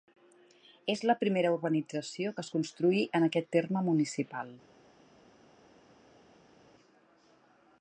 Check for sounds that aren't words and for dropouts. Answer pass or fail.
pass